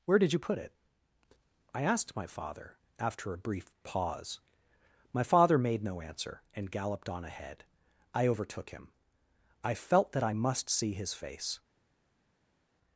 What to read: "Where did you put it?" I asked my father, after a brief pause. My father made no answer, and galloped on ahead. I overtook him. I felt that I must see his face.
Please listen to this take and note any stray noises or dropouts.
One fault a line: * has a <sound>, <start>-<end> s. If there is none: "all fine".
all fine